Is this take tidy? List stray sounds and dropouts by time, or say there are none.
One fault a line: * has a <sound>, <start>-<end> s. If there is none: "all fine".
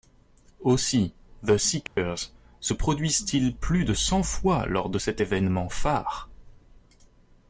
* has a dropout, 1.9-2.0 s